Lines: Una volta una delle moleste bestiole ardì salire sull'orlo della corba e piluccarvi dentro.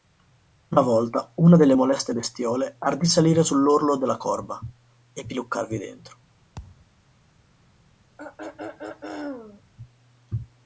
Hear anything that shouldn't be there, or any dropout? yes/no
yes